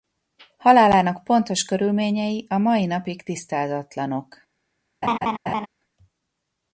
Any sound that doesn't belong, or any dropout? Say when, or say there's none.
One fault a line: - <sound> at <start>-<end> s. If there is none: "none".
- laugh at 5.0-5.7 s